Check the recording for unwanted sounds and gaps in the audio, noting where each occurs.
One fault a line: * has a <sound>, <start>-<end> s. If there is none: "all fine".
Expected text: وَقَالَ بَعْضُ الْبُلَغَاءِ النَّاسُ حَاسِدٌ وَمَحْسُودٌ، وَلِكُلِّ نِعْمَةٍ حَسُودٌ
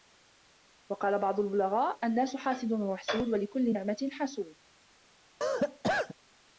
* has a cough, 5.4-6.1 s